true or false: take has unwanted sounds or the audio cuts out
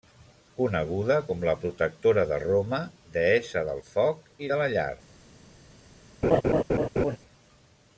true